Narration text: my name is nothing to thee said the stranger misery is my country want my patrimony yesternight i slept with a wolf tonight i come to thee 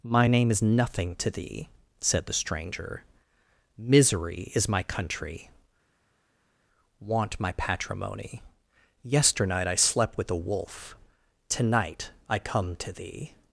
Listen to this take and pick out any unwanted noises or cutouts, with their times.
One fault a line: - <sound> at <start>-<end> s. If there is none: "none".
none